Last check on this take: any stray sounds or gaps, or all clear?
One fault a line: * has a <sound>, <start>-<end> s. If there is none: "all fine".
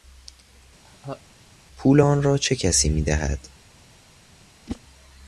* has a laugh, 0.8-1.2 s
* has a whoosh, 4.7-4.8 s